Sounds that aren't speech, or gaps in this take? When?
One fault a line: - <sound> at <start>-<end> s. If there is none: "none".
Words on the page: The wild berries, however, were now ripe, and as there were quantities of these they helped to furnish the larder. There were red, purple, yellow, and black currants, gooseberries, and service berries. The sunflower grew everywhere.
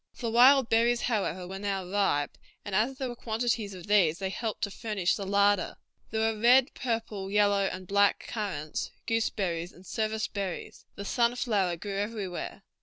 none